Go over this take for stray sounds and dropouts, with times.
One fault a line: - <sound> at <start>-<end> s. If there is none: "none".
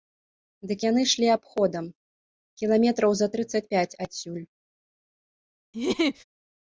- laugh at 5.7-6.2 s